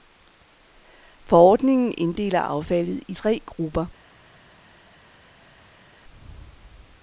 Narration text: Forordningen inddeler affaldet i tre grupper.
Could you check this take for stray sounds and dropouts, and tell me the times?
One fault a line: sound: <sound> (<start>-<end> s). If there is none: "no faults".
no faults